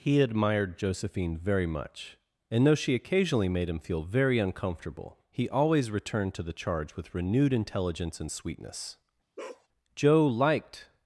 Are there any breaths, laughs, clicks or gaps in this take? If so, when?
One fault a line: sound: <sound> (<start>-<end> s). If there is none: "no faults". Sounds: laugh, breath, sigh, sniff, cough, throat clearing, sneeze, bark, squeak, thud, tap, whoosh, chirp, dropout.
sound: bark (9.4-9.7 s)